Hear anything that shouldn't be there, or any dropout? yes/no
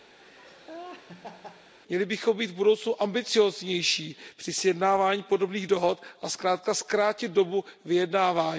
yes